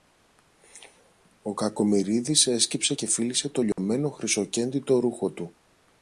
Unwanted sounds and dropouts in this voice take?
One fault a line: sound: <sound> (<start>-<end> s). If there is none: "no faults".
sound: dropout (3.7-3.8 s)